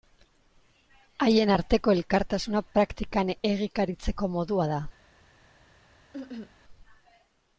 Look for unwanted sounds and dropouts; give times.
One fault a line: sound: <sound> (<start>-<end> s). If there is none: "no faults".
sound: cough (6.1-6.5 s)